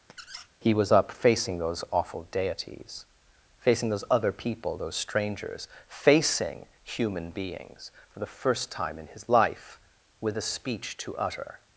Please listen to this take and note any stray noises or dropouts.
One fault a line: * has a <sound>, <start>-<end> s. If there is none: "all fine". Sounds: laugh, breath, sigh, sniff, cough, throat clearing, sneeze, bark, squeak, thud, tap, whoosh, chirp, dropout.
* has a squeak, 0.1-0.5 s